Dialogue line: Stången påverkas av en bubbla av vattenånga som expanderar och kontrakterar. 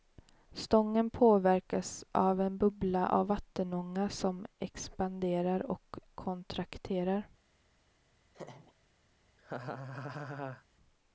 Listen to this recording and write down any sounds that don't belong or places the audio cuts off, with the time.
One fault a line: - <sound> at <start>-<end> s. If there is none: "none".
- laugh at 8.3-8.7 s
- laugh at 9.4-10.6 s